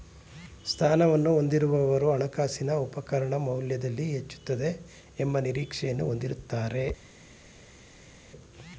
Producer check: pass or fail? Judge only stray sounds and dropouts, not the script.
pass